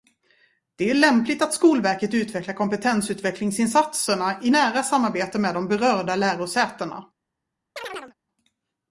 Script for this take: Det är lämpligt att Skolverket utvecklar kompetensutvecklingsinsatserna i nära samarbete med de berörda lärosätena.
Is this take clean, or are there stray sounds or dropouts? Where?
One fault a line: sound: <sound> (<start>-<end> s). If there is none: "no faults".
sound: chirp (7.8-8.1 s)